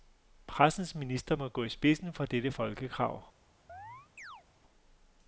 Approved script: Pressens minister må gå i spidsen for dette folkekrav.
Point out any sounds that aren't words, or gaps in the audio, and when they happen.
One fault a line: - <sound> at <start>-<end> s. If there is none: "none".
- chirp at 3.7-4.4 s